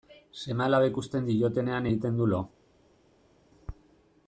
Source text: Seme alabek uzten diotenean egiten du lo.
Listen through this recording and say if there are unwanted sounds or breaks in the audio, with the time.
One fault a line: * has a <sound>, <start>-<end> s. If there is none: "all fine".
all fine